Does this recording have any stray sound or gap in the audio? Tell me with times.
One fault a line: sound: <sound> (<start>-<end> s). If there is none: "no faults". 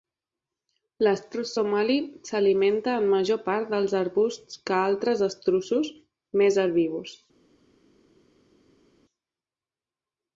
no faults